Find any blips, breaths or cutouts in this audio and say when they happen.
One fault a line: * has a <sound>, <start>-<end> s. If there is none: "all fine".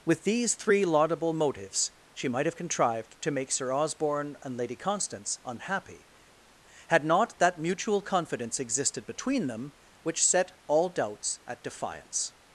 all fine